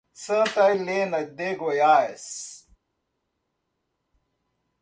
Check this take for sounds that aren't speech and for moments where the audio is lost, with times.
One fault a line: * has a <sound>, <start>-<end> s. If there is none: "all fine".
all fine